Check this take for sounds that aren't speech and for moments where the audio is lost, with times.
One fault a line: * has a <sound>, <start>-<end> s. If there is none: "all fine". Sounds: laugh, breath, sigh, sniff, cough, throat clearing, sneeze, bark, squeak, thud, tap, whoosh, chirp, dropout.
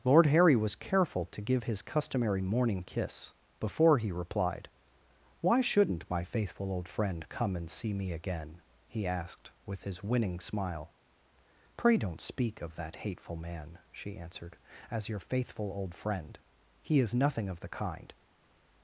all fine